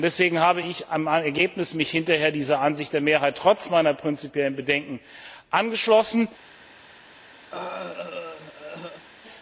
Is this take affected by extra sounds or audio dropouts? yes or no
yes